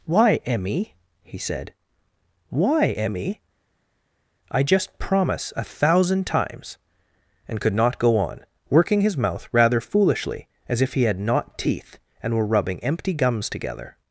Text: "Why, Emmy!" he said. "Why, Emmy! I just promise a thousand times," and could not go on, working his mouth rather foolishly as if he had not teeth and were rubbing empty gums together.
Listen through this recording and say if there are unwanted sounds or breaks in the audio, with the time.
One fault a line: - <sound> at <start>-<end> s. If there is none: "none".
none